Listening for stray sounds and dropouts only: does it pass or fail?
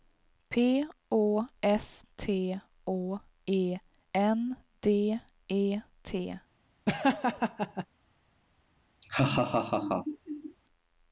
fail